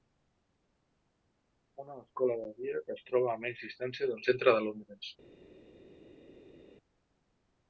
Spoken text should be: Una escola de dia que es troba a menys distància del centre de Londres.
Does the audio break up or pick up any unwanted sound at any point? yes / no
no